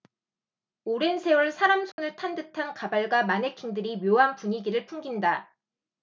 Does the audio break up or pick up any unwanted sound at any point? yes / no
yes